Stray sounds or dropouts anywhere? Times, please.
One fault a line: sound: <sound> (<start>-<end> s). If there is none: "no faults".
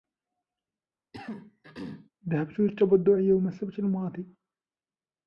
sound: throat clearing (1.1-2.1 s)